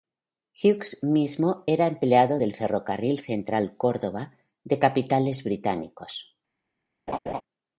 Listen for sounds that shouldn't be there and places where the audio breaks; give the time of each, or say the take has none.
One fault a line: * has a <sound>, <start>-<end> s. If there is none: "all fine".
* has a laugh, 7.1-7.4 s